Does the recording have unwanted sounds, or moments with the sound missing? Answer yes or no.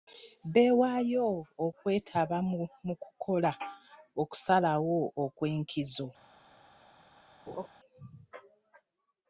yes